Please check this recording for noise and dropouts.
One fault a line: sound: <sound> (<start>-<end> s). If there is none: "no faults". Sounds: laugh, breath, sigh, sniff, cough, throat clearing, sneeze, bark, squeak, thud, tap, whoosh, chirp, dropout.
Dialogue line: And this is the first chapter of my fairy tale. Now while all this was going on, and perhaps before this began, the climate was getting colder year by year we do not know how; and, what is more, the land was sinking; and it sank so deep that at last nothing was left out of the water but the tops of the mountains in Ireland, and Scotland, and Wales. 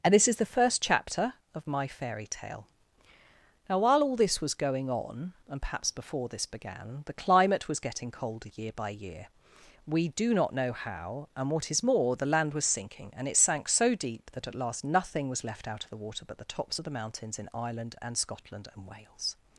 no faults